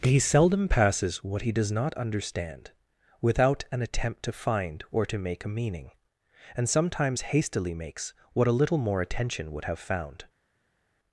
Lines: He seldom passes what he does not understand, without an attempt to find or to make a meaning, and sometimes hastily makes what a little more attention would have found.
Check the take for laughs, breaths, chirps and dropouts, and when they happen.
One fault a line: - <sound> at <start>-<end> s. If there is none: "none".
none